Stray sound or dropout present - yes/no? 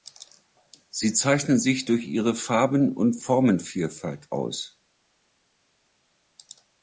no